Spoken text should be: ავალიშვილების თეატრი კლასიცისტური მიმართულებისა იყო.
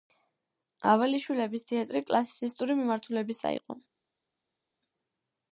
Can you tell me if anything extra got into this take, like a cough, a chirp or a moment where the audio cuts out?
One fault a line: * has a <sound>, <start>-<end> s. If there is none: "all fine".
all fine